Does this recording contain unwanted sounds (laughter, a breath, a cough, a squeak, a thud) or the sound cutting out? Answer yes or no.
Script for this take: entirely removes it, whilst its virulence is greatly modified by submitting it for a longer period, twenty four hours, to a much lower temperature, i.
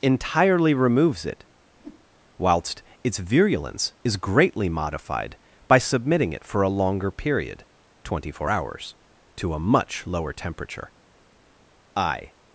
yes